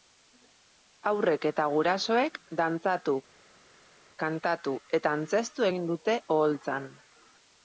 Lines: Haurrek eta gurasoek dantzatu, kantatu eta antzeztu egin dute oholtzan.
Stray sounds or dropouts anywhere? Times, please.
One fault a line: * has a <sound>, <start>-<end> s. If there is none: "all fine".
all fine